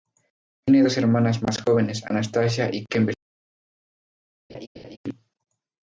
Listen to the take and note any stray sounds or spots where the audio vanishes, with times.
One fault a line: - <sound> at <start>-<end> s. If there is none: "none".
- laugh at 4.5-5.0 s